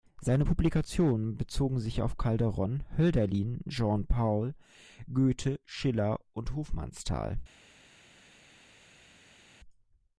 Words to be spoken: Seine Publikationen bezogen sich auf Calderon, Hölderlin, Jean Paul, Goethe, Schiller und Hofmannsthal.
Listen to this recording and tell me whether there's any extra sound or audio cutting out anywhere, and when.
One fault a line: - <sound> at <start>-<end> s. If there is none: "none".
none